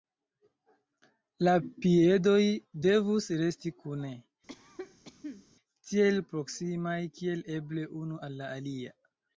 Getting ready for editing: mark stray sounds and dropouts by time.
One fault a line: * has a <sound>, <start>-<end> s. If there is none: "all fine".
* has a cough, 4.5-5.4 s